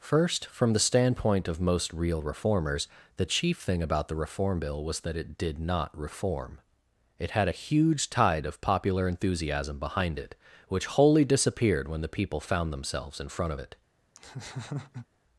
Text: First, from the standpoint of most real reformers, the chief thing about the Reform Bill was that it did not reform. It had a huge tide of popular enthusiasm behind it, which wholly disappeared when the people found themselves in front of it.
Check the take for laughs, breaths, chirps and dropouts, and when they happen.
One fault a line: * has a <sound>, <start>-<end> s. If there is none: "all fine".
* has a laugh, 14.2-15.1 s